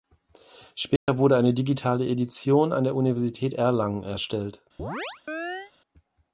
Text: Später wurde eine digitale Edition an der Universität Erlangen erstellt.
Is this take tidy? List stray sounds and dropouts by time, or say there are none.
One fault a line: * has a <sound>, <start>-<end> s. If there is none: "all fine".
* has a dropout, 1.0-1.1 s
* has a chirp, 4.8-5.7 s